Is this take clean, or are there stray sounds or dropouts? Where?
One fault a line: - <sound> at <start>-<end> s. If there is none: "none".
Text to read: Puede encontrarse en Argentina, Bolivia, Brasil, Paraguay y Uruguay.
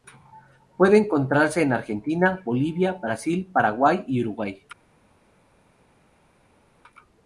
none